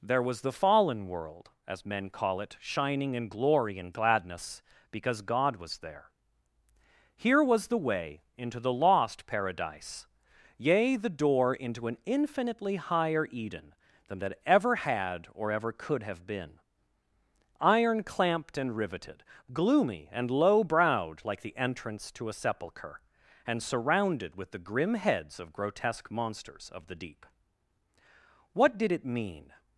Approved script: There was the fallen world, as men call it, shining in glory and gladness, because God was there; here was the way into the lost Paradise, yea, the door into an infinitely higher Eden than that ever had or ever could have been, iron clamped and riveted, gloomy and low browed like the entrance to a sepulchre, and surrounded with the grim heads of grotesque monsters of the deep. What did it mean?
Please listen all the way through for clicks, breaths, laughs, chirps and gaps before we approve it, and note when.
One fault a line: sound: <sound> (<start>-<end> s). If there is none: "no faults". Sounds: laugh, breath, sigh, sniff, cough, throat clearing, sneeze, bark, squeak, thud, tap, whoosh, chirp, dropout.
no faults